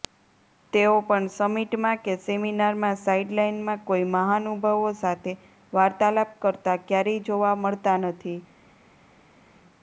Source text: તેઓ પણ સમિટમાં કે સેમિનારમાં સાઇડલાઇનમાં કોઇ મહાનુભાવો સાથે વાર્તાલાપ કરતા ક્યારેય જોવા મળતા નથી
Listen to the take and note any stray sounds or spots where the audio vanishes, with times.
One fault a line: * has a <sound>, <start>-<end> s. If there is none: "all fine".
all fine